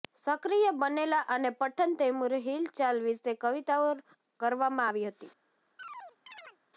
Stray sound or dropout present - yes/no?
yes